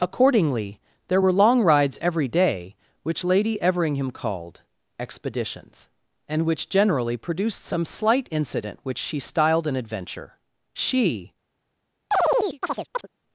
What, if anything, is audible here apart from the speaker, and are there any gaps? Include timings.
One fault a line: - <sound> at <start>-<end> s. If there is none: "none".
- chirp at 12.1-13.1 s